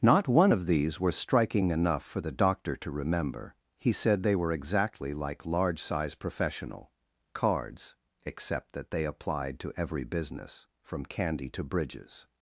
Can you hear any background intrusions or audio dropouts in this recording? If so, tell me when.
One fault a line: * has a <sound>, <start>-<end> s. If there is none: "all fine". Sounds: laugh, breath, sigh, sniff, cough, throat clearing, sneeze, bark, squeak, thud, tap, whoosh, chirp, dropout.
all fine